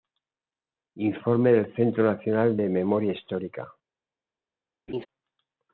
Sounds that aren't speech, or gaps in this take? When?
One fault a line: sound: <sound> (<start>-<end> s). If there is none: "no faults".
sound: laugh (4.9-5.1 s)